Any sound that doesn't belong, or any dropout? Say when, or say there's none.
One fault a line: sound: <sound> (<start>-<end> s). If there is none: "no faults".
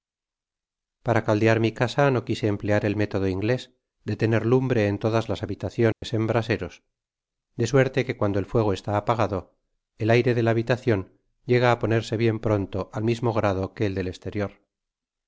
sound: dropout (5.9-6.0 s)